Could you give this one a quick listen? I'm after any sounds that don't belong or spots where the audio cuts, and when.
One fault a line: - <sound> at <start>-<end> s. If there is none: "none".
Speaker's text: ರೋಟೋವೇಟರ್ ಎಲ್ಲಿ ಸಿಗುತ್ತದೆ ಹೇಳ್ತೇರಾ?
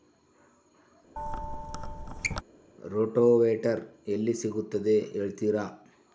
- squeak at 1.2-2.4 s